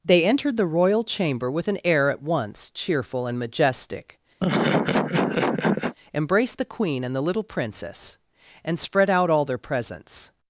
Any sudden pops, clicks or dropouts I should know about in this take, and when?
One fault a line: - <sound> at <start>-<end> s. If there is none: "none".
- laugh at 4.4-5.9 s